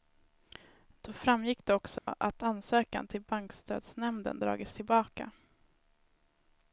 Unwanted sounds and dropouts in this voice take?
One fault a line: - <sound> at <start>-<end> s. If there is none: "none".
- dropout at 2.0-2.1 s